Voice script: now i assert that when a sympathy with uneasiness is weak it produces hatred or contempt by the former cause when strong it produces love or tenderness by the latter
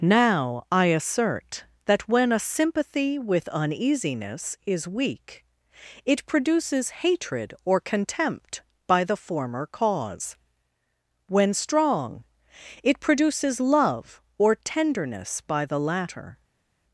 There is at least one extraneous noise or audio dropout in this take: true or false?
false